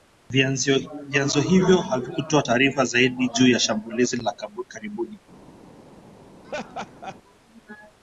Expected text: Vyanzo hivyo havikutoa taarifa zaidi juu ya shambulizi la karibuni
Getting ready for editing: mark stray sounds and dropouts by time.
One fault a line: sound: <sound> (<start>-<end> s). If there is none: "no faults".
sound: laugh (6.4-7.2 s)